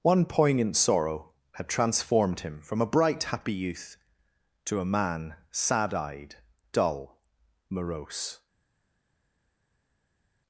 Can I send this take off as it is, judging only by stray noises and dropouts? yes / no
yes